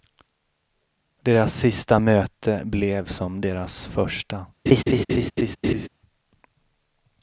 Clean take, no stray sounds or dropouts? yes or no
no